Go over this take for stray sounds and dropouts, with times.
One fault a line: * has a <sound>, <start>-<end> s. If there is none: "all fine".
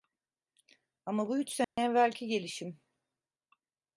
* has a dropout, 1.6-1.8 s